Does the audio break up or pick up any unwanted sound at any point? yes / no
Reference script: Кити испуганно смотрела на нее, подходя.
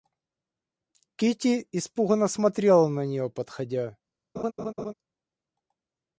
yes